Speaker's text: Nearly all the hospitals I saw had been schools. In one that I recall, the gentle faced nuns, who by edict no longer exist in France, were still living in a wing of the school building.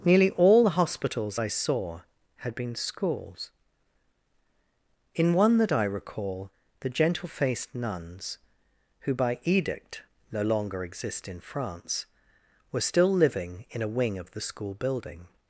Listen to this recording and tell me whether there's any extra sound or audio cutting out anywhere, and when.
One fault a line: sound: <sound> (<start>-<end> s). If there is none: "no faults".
no faults